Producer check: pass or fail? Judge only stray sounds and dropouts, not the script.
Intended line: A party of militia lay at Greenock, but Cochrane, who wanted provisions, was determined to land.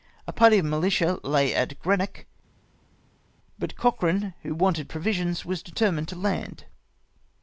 pass